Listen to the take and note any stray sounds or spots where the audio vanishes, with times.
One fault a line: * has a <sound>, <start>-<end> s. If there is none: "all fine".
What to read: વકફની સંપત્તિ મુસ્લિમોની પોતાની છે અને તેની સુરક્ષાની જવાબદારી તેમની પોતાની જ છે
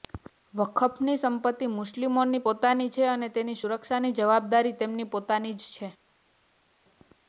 all fine